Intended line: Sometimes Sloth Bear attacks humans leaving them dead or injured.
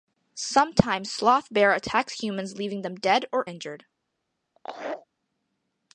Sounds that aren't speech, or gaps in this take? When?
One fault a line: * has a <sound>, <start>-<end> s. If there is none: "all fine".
* has a laugh, 4.6-5.1 s